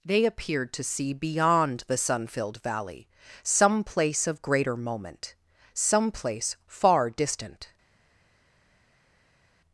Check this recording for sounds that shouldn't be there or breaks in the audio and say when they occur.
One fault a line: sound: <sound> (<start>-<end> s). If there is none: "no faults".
no faults